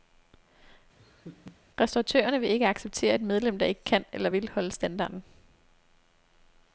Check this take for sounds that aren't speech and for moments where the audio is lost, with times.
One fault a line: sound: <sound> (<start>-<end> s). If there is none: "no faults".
sound: laugh (1.0-1.6 s)